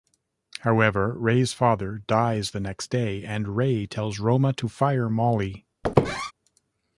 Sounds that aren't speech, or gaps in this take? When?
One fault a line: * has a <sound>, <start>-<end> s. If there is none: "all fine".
* has a squeak, 5.8-6.3 s